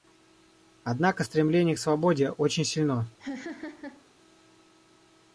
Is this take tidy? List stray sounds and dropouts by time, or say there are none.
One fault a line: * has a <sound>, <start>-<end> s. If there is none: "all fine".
* has a laugh, 3.2-4.0 s